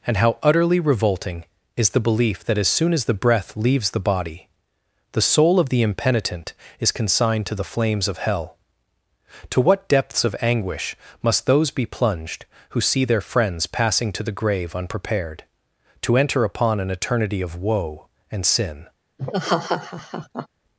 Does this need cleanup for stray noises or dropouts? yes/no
yes